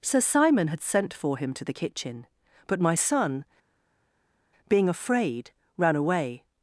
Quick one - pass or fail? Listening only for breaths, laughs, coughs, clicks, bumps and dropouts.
pass